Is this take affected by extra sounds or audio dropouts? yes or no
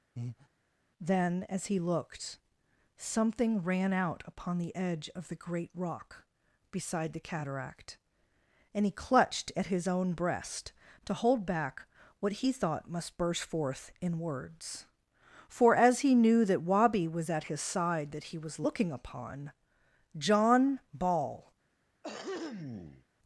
yes